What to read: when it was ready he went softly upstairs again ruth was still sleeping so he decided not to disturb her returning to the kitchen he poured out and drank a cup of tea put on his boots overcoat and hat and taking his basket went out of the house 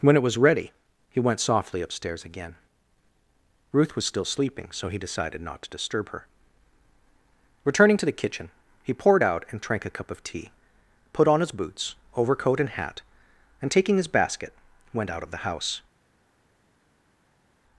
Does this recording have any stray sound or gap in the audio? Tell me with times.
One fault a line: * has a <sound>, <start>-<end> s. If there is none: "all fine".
all fine